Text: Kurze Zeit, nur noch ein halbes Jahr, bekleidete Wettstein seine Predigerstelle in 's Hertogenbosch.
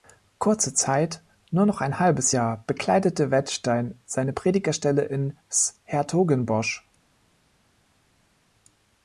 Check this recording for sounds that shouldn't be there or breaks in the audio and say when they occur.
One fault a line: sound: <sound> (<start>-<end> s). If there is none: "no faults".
no faults